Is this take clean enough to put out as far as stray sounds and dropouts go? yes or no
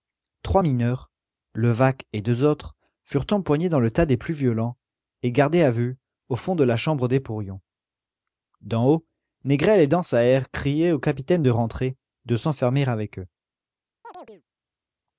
no